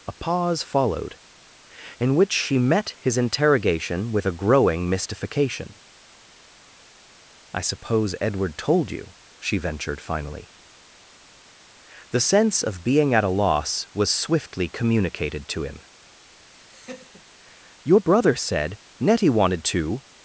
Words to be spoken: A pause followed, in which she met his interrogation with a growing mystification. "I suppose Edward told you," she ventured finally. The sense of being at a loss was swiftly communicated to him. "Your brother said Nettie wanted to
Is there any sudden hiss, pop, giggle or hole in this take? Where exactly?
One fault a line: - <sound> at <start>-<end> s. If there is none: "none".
- laugh at 16.5-17.3 s